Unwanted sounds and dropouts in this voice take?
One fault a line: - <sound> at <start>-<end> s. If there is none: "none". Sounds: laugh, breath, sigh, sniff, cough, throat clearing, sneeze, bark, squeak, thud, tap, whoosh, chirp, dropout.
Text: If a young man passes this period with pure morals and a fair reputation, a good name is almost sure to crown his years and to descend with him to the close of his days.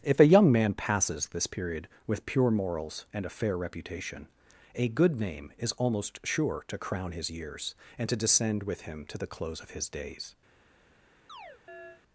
- chirp at 11.3-12.0 s